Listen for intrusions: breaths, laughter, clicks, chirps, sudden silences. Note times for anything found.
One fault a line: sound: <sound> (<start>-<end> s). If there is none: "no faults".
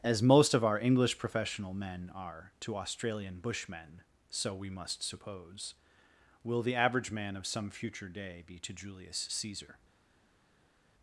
no faults